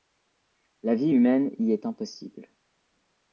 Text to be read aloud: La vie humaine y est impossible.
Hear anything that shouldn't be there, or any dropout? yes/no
no